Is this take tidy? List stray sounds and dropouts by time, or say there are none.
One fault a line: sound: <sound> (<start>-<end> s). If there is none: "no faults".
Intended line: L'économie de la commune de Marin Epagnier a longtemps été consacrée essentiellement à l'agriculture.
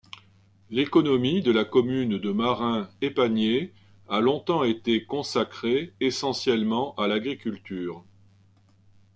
no faults